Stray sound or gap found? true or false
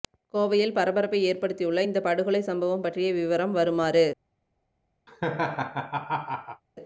true